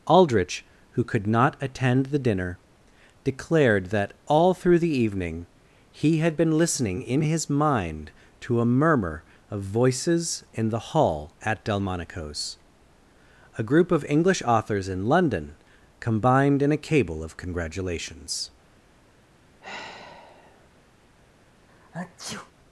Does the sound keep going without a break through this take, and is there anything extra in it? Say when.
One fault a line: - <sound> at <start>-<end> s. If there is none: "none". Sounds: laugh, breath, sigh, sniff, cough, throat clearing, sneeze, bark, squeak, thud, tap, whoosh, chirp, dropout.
- sigh at 19.6-20.7 s
- sneeze at 21.7-22.5 s